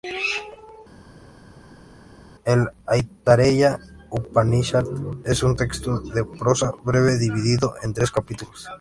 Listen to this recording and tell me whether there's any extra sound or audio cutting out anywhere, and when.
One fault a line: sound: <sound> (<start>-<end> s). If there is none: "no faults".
no faults